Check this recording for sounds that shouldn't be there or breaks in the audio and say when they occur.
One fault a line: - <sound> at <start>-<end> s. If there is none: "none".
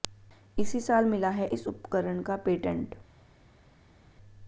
none